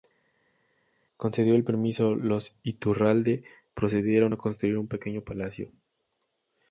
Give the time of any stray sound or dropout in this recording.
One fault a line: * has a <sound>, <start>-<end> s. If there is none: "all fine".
all fine